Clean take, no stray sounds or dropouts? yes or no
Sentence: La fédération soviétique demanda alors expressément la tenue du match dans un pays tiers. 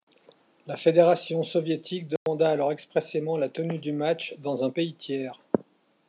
no